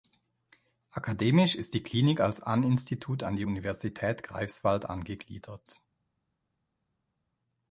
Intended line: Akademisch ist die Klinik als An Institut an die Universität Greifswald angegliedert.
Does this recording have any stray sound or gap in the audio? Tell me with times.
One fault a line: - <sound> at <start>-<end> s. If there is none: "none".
none